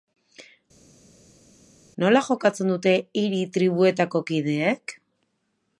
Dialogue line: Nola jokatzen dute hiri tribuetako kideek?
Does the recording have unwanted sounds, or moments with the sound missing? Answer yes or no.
no